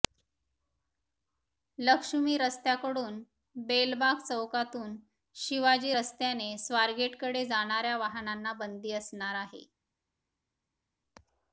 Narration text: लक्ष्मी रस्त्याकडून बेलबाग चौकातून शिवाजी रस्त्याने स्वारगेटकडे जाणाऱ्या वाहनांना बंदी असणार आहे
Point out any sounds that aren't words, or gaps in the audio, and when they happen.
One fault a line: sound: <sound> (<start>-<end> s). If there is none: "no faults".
no faults